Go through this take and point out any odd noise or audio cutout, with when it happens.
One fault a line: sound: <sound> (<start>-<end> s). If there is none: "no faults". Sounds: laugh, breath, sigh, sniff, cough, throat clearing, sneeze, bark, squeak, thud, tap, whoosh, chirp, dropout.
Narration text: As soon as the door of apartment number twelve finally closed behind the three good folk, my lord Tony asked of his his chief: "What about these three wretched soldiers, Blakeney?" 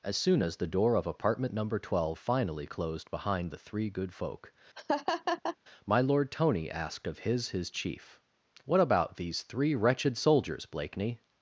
sound: laugh (4.8-5.6 s)